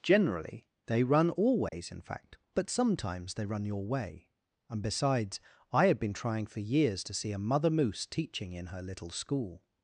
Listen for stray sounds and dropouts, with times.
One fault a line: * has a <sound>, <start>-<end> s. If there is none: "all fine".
* has a dropout, 1.7-1.7 s